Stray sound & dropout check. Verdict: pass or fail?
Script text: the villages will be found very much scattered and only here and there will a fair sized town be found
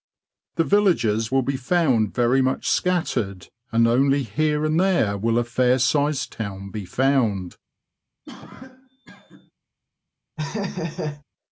fail